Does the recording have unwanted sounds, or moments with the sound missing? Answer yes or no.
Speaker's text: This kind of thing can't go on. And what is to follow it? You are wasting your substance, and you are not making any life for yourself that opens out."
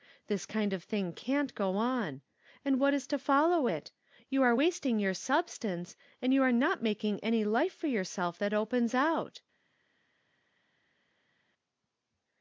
no